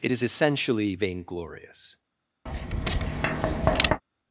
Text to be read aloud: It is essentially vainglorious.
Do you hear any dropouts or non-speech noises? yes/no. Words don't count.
yes